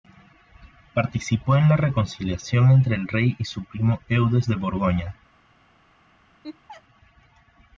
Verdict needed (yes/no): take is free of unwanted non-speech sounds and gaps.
no